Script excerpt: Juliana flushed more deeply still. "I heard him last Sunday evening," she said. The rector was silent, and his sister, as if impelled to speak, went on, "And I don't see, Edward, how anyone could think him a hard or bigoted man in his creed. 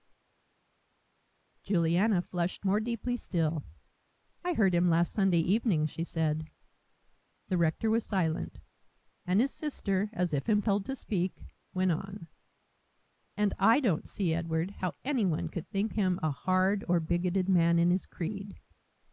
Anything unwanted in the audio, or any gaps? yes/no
no